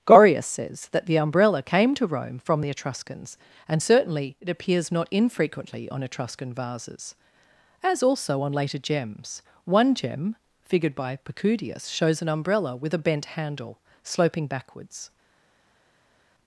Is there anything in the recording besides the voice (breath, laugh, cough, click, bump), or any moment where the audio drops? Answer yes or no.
no